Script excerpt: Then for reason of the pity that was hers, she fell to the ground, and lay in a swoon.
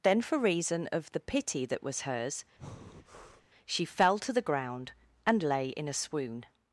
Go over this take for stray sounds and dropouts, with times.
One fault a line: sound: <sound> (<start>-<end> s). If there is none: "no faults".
sound: breath (2.6-3.5 s)